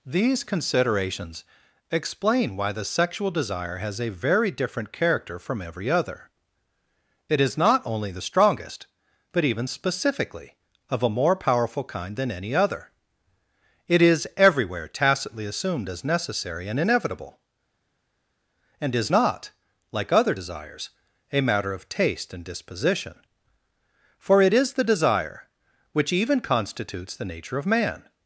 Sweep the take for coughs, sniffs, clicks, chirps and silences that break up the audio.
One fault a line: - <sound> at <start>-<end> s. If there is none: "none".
none